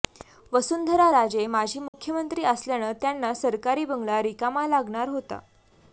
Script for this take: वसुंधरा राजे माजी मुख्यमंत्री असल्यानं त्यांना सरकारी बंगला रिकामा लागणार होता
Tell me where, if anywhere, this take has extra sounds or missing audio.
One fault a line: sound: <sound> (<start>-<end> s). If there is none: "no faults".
sound: dropout (1.9-1.9 s)